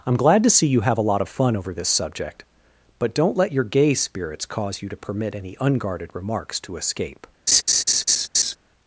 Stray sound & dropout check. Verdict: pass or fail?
fail